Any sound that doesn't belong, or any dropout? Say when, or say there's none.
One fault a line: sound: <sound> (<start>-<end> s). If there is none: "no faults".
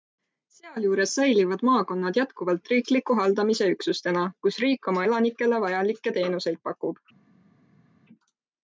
no faults